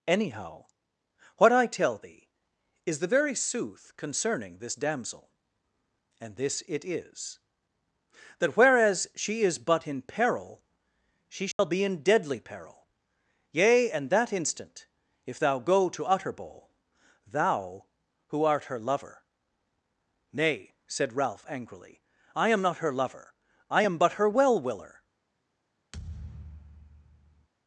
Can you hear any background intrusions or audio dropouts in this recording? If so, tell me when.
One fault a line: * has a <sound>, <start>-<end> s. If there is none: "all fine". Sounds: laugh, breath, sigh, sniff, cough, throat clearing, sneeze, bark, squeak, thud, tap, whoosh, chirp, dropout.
* has a dropout, 11.5-11.6 s
* has a thud, 25.9-27.5 s